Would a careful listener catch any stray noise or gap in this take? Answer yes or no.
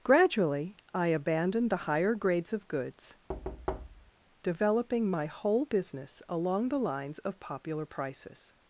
yes